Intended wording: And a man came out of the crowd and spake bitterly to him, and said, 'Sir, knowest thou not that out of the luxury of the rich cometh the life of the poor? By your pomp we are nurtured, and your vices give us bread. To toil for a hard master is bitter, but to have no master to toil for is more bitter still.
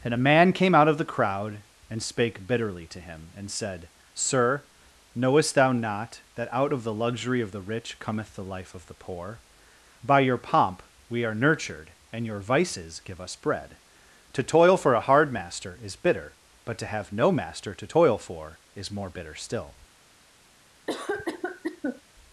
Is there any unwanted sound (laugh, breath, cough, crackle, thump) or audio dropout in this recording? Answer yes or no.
yes